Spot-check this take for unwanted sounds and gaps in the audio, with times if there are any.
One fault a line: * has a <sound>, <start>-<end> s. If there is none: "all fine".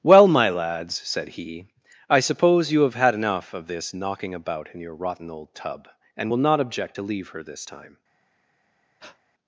* has a breath, 9.0-9.2 s